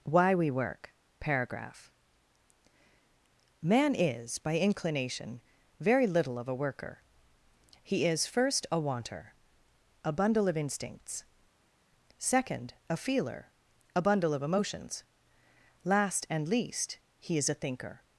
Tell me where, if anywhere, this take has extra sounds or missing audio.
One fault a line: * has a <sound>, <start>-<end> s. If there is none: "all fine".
all fine